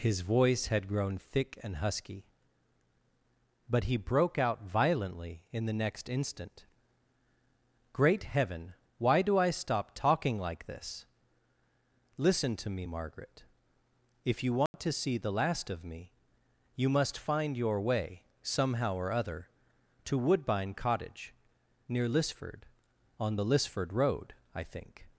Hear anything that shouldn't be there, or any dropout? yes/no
yes